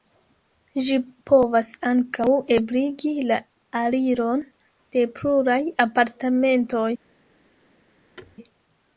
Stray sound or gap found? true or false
true